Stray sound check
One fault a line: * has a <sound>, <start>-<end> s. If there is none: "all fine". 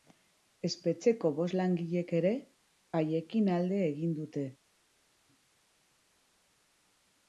all fine